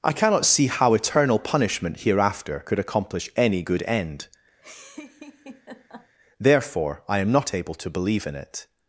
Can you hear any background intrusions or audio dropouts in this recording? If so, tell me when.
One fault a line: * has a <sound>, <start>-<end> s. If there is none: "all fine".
* has a laugh, 4.6-6.1 s